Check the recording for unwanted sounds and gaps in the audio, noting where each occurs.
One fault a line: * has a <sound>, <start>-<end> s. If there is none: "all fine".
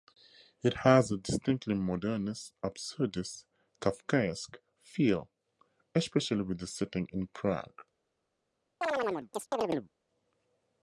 * has a chirp, 8.8-9.9 s